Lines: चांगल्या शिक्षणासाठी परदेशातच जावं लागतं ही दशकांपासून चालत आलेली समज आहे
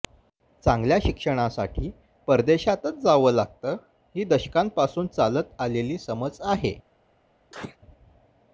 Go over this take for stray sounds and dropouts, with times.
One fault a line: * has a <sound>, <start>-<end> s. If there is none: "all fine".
* has a sneeze, 7.5-7.8 s